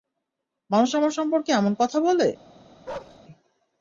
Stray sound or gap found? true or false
true